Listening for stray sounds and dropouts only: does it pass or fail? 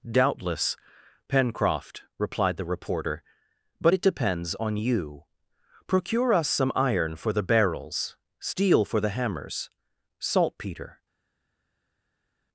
pass